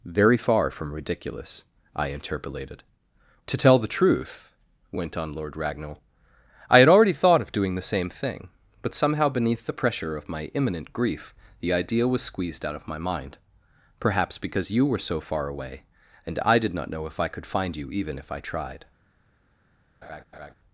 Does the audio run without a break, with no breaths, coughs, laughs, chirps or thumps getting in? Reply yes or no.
no